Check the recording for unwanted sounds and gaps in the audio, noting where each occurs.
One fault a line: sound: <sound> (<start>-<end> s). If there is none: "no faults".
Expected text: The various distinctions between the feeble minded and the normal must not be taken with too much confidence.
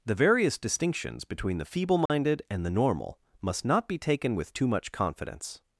sound: dropout (2.1-2.1 s)